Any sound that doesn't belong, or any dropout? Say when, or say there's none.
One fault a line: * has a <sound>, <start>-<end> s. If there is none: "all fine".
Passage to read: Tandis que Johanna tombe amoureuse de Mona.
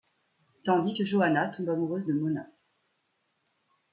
all fine